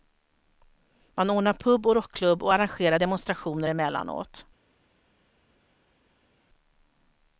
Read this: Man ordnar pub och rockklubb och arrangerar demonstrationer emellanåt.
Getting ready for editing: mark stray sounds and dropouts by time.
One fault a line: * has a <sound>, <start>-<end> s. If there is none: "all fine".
all fine